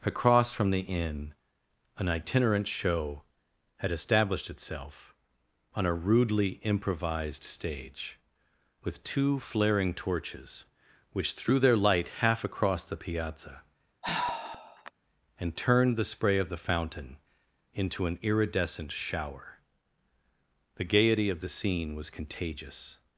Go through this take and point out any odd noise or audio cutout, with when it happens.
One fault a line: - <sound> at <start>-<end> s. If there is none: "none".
- sigh at 14.0-14.9 s